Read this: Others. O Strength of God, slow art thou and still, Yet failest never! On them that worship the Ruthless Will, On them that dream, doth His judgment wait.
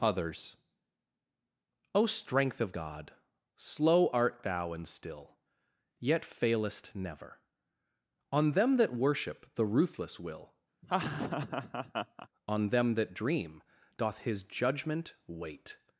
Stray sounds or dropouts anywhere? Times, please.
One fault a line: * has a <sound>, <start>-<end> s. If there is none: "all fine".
* has a laugh, 10.8-12.3 s